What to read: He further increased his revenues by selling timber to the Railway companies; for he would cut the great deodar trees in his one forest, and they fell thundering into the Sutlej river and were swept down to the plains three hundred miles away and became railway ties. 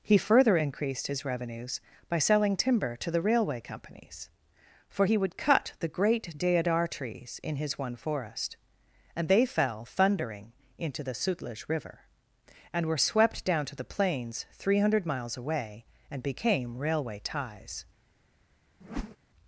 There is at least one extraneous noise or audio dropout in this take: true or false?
true